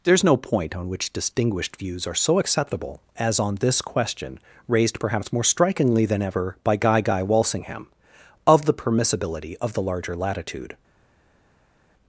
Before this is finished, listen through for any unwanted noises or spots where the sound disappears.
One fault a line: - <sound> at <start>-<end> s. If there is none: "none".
none